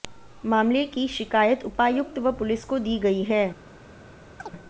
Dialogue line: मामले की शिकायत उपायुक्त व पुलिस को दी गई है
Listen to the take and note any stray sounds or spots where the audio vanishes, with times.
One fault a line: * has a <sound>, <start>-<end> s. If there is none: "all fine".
* has a chirp, 4.4-4.5 s